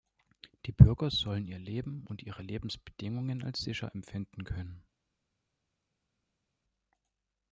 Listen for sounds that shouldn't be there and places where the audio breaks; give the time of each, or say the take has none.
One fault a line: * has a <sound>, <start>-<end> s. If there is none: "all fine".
all fine